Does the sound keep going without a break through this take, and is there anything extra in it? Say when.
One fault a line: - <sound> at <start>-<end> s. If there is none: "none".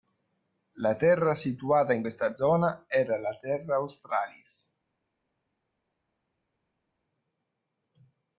none